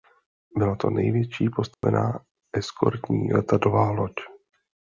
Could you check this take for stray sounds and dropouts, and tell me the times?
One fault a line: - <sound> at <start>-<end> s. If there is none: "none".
- dropout at 1.7-1.8 s